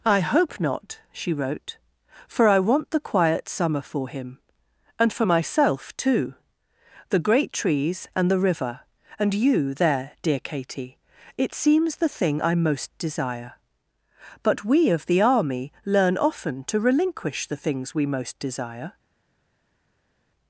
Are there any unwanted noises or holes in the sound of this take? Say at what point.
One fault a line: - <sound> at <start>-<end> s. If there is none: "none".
none